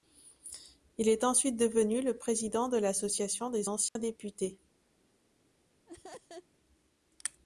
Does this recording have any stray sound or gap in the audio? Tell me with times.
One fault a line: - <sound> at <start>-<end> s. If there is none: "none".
- dropout at 3.9-4.0 s
- laugh at 5.9-6.5 s